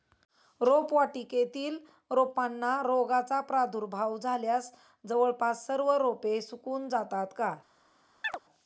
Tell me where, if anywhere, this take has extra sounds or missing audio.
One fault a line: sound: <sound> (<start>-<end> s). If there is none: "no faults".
sound: chirp (8.2-8.4 s)